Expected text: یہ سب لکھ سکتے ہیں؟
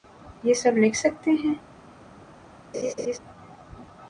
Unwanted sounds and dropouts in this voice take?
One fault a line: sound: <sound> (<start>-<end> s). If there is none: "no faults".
sound: laugh (2.7-3.2 s)